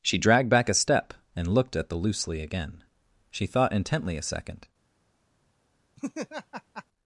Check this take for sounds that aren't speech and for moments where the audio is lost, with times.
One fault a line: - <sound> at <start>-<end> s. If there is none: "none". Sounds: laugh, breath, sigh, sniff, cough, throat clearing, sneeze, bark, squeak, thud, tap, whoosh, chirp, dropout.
- laugh at 6.0-6.8 s